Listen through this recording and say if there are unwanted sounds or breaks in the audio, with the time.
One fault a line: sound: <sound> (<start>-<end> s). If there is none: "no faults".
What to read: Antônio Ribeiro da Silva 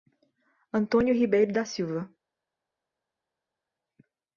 no faults